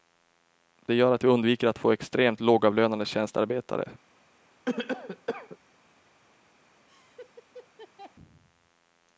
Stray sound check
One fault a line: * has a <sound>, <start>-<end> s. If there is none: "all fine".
* has a cough, 4.6-5.6 s
* has a laugh, 6.9-8.1 s